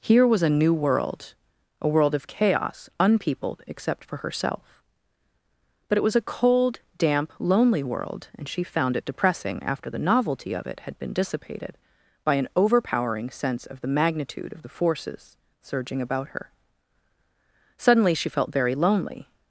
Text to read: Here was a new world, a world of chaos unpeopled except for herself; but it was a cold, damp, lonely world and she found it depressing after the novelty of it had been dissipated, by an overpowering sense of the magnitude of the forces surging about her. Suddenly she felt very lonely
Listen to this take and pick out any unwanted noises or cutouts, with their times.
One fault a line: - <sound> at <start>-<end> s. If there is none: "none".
none